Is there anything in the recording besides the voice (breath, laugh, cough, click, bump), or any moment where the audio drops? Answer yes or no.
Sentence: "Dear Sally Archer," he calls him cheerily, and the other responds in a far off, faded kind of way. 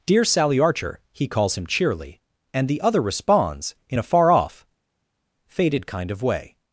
no